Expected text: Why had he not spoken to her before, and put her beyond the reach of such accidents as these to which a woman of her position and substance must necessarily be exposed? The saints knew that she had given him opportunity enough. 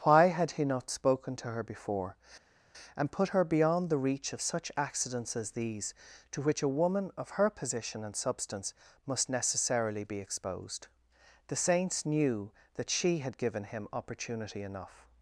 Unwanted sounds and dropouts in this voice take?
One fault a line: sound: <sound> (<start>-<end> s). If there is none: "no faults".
no faults